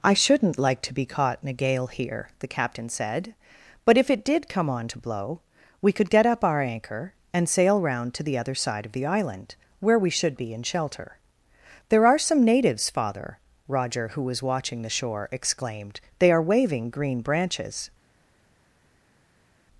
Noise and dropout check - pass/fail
pass